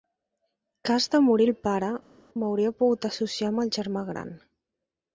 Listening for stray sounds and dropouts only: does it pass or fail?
pass